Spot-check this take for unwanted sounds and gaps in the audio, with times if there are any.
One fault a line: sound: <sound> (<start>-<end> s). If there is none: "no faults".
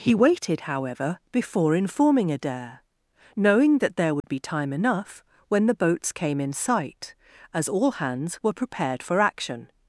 sound: dropout (4.2-4.2 s)